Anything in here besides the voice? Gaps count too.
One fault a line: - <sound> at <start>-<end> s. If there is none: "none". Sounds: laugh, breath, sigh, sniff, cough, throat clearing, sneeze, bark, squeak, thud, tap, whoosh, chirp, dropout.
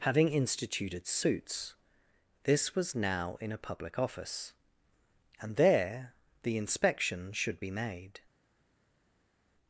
none